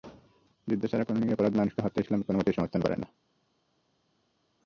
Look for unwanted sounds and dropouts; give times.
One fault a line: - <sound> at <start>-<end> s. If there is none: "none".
none